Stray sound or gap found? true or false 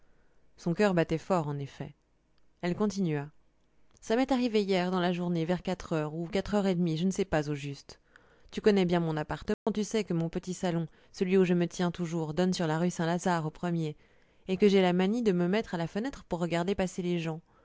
true